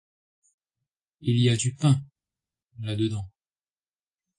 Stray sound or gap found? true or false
false